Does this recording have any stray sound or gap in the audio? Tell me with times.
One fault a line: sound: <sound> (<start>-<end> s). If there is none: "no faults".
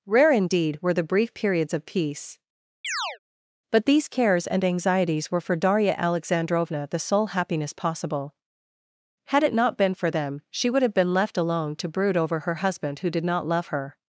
sound: chirp (2.8-3.2 s)